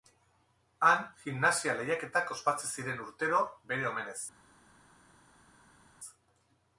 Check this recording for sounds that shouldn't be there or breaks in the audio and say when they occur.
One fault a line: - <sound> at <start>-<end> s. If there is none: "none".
none